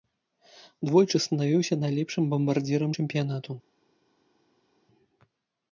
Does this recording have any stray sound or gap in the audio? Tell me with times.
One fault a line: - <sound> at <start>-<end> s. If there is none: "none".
none